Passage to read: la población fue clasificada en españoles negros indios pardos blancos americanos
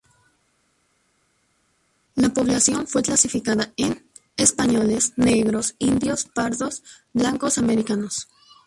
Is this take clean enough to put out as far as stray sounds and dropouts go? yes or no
yes